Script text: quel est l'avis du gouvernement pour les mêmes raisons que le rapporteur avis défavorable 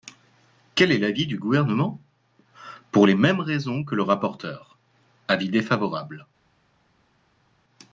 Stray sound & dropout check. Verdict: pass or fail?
pass